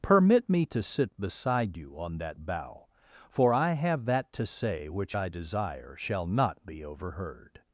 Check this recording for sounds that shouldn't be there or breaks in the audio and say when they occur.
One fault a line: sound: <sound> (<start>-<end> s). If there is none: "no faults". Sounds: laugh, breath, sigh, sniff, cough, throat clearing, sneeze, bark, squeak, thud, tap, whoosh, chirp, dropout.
no faults